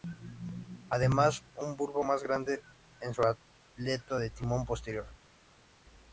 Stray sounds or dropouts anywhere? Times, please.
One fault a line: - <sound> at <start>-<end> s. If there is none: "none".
none